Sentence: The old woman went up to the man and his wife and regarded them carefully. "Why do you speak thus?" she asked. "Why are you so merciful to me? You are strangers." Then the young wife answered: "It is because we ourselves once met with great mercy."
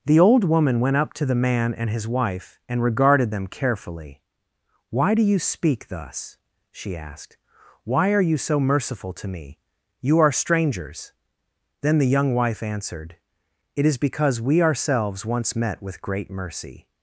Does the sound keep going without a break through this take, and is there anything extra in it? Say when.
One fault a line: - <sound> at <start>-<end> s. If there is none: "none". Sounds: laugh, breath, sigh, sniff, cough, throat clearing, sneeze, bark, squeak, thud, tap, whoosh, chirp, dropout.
none